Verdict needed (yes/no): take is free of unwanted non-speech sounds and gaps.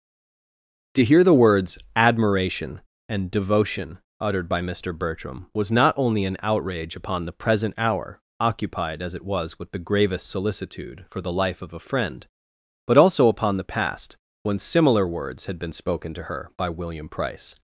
yes